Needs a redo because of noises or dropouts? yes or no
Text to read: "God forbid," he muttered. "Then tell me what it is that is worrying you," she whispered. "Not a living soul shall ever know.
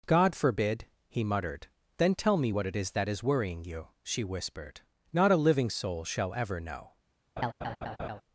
yes